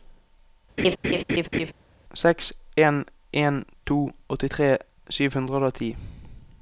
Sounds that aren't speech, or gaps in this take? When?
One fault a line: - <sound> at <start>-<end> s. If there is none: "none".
- laugh at 0.8-1.7 s